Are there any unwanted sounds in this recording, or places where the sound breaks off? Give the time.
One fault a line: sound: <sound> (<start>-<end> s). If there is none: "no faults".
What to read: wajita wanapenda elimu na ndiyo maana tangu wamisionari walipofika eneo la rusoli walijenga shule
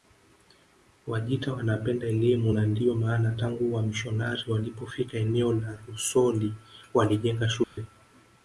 sound: dropout (7.6-7.8 s)